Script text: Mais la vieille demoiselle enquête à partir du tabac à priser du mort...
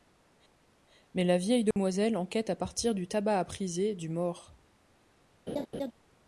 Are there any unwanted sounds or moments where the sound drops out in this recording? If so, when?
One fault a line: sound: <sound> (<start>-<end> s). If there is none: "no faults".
sound: dropout (1.7-1.8 s)
sound: laugh (5.5-5.9 s)